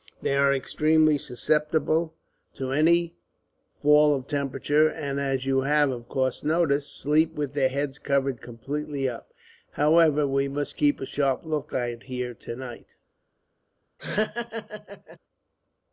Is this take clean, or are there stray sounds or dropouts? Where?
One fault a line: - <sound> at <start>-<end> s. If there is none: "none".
- laugh at 14.0-15.2 s